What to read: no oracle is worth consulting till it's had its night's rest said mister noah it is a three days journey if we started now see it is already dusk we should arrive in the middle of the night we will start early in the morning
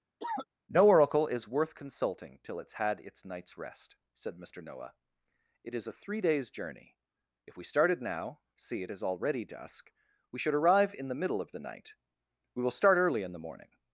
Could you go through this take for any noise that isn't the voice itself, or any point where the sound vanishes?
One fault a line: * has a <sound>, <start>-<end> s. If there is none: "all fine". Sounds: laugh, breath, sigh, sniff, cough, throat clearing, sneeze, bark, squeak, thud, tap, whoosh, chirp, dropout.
* has a cough, 0.2-0.5 s